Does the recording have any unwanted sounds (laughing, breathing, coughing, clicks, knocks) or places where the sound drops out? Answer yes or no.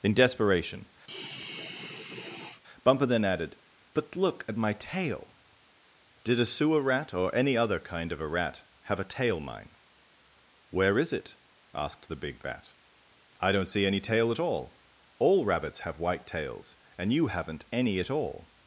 yes